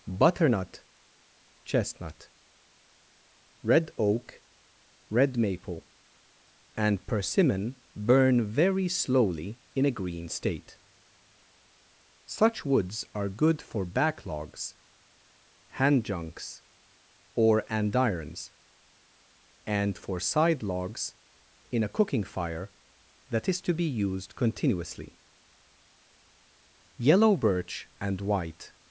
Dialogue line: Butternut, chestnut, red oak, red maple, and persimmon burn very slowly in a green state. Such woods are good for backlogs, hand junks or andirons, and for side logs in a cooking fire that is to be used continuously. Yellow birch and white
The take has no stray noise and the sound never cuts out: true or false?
true